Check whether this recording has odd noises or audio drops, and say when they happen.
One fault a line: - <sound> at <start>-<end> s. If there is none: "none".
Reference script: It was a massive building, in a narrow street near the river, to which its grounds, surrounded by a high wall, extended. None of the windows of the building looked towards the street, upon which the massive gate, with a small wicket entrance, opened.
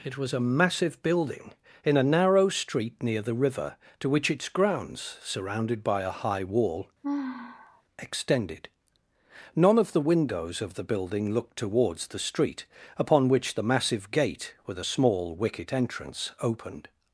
- sigh at 7.0-7.8 s